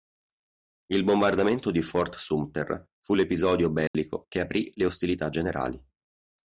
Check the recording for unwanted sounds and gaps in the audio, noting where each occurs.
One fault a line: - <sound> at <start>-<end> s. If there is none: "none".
- dropout at 3.9-3.9 s